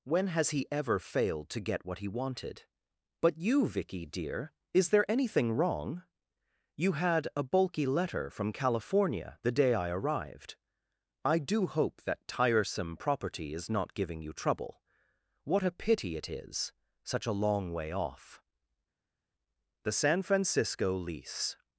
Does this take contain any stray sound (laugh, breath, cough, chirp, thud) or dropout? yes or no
no